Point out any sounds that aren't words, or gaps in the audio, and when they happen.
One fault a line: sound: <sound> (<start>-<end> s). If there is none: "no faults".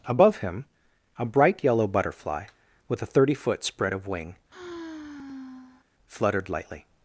sound: sigh (4.5-5.9 s)